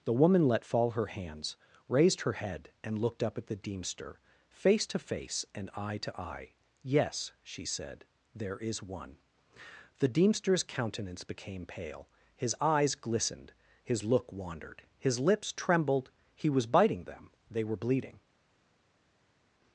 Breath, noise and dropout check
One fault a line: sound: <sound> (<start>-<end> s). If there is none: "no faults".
no faults